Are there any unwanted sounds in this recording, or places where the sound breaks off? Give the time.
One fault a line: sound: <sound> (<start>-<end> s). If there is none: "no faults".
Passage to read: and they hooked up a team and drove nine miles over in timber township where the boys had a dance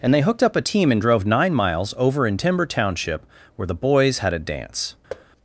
sound: thud (5.1-5.3 s)